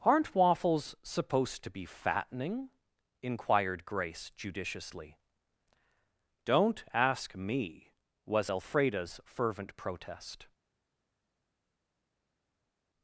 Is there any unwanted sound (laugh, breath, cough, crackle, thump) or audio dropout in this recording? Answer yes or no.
no